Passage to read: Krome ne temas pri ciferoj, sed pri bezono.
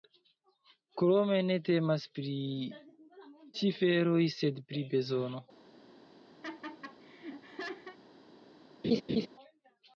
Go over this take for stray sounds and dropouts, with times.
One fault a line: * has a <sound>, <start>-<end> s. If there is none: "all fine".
* has a laugh, 6.4-8.0 s
* has a laugh, 8.8-9.3 s